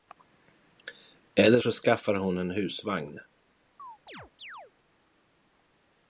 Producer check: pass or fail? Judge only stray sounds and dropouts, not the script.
fail